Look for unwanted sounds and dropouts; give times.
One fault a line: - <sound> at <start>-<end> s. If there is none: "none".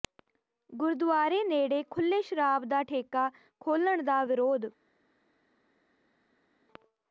none